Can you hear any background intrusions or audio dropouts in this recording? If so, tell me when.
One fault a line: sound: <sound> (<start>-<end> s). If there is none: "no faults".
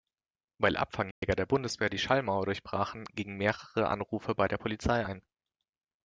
sound: dropout (1.1-1.2 s)